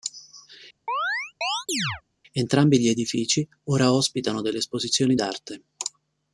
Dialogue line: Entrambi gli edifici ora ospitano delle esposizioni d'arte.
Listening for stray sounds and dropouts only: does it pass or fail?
fail